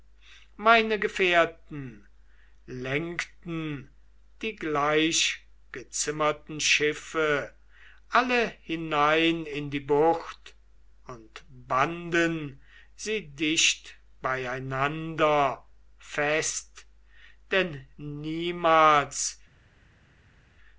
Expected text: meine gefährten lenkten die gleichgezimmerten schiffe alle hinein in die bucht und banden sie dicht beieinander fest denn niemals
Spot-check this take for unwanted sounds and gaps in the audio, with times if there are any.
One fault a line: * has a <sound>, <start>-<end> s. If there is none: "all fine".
all fine